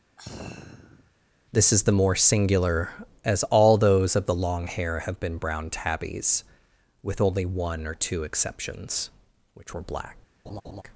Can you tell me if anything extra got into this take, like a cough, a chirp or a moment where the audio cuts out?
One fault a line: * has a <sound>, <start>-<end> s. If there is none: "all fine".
* has a sigh, 0.2-1.1 s
* has a laugh, 10.5-10.8 s